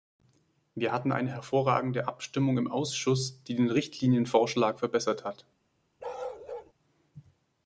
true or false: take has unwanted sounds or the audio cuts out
true